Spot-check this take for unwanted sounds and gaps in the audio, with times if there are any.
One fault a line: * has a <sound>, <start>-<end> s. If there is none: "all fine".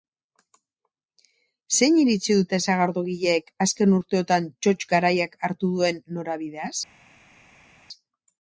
all fine